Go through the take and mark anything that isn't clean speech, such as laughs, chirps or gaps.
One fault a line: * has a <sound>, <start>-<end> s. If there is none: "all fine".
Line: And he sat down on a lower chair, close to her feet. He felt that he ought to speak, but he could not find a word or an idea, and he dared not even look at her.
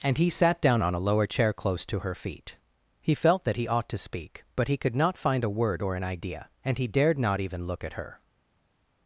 all fine